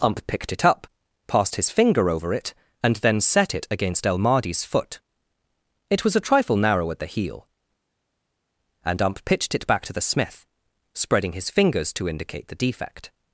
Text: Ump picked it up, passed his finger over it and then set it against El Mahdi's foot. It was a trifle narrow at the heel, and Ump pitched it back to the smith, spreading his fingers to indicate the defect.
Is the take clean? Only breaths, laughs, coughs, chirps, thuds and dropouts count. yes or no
yes